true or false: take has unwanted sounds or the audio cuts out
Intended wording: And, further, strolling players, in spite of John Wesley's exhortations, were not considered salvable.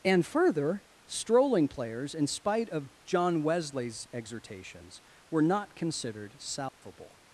true